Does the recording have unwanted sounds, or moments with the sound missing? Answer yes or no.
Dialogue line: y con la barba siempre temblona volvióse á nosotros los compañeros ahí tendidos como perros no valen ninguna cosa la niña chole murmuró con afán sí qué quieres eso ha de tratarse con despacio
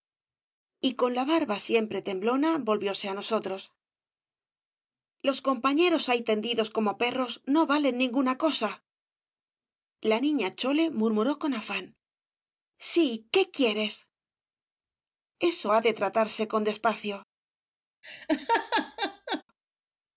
yes